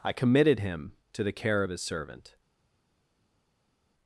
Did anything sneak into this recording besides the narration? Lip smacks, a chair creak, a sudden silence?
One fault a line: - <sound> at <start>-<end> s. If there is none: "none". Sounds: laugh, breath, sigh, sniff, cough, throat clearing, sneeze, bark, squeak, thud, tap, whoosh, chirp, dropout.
none